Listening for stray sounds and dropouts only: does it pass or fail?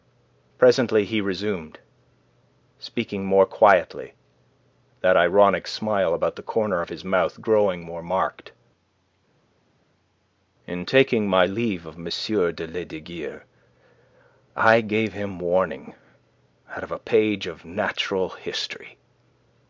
pass